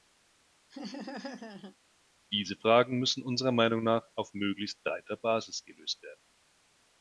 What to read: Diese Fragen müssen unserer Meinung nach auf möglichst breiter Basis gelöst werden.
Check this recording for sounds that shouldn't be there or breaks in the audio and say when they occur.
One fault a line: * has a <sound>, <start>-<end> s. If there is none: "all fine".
* has a laugh, 0.7-1.8 s